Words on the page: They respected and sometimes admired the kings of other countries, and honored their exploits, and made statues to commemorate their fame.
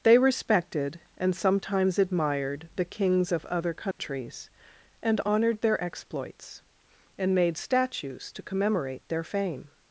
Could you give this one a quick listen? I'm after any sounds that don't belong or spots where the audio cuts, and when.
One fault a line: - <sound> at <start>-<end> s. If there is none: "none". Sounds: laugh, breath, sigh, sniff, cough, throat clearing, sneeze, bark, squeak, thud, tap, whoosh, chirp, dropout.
- dropout at 3.9-4.0 s